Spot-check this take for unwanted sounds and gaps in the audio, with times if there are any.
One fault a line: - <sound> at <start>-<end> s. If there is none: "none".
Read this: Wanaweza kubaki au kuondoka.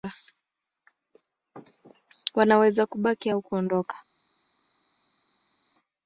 none